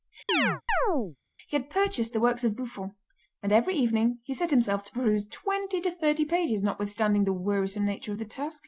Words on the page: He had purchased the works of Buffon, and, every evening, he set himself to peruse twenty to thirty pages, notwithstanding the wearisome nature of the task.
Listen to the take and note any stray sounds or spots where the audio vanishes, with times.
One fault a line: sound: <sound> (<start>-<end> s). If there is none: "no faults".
sound: chirp (0.3-1.2 s)